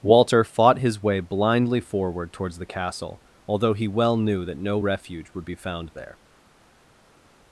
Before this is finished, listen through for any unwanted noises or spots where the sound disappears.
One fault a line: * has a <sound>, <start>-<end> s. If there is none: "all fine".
all fine